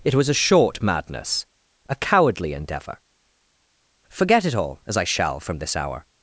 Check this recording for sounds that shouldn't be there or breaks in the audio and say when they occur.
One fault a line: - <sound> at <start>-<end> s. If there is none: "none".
none